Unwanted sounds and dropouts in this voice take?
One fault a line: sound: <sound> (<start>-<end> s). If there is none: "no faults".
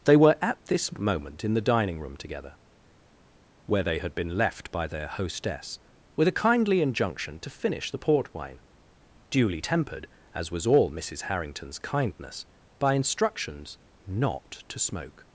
no faults